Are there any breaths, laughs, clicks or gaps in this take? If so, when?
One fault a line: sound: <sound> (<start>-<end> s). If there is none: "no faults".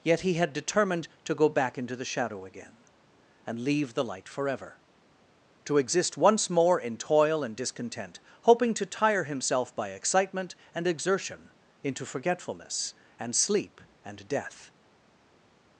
no faults